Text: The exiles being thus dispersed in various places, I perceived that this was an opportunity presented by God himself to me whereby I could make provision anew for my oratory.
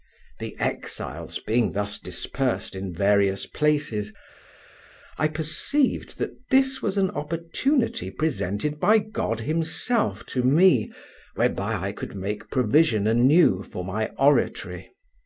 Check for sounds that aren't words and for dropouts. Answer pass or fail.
pass